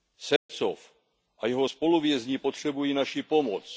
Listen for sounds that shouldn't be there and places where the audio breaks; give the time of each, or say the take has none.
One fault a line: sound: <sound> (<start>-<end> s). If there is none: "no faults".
sound: dropout (0.4-0.5 s)